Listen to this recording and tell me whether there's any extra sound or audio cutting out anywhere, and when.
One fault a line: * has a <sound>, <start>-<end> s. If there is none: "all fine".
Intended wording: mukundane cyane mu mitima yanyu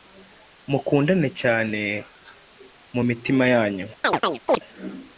* has a chirp, 4.0-4.6 s